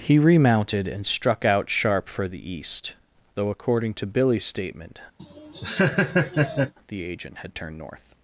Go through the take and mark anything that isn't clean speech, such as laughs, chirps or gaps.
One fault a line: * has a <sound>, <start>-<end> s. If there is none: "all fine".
* has a laugh, 5.2-6.7 s